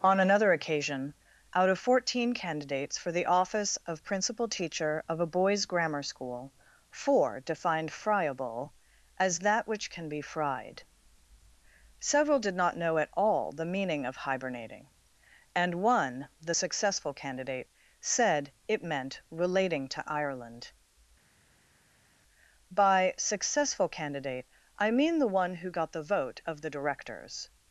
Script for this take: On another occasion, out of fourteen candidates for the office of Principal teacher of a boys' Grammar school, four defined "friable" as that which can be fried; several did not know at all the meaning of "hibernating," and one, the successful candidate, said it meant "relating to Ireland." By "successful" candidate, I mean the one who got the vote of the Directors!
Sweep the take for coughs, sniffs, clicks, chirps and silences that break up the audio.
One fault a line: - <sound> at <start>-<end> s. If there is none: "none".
none